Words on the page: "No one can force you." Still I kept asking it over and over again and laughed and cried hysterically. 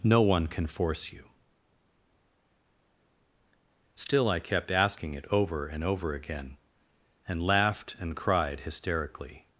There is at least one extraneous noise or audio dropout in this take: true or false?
false